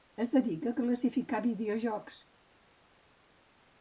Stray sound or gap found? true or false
false